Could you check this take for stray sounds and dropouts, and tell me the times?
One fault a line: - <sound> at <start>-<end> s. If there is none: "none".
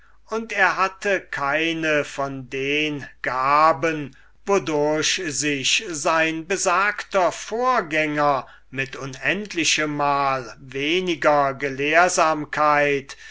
none